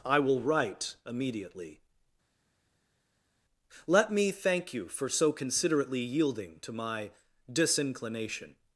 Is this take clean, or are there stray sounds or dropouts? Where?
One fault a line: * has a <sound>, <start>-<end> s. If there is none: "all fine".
all fine